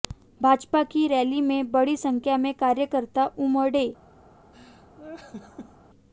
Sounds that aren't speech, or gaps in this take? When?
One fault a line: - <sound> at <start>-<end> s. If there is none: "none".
- laugh at 4.5-5.8 s